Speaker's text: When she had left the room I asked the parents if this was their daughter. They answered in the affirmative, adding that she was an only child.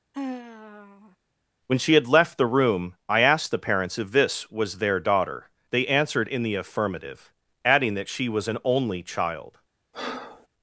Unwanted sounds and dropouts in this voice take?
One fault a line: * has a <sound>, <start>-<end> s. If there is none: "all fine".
* has a sigh, 0.1-1.2 s
* has a breath, 9.9-10.5 s